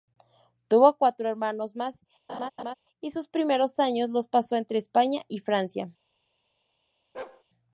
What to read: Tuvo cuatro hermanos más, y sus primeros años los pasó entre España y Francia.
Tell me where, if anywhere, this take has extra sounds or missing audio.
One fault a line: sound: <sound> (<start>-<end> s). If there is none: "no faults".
sound: laugh (2.3-2.7 s)
sound: bark (7.1-7.4 s)